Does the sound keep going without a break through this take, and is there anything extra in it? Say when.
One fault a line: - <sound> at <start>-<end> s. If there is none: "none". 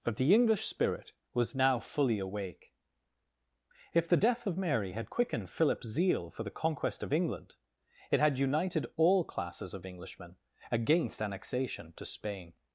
none